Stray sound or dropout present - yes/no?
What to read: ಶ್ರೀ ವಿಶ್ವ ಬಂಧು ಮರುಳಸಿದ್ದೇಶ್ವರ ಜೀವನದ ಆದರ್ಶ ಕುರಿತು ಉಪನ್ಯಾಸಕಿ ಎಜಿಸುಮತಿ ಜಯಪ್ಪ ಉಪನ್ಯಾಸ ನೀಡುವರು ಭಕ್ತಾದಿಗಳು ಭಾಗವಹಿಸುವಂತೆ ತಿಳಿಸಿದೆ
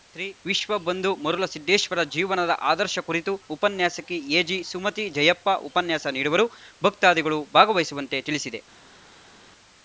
no